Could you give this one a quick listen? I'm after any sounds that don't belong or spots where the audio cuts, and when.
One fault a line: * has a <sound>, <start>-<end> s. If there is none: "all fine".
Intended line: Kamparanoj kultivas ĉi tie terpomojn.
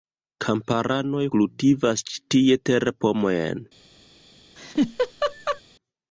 * has a laugh, 4.6-5.6 s